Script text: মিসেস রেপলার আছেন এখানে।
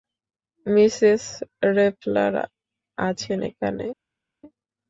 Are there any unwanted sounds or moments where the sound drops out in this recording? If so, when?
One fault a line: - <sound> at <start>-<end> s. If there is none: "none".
none